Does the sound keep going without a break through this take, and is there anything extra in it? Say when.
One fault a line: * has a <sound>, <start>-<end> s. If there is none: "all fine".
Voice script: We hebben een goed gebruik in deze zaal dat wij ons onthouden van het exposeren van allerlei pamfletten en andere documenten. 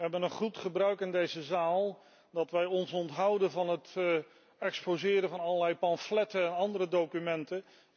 all fine